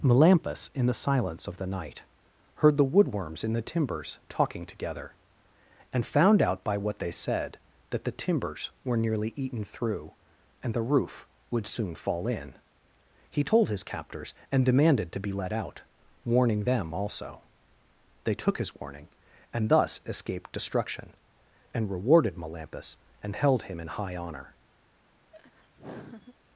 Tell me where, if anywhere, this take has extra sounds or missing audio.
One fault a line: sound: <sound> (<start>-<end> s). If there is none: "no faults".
sound: laugh (25.3-26.4 s)